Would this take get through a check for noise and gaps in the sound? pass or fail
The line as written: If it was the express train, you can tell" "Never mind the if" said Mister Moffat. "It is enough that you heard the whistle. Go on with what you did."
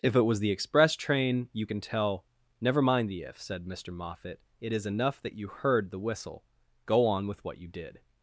pass